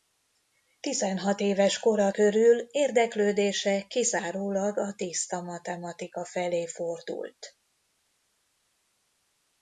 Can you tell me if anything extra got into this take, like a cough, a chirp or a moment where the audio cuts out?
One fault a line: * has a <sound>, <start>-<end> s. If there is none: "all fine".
all fine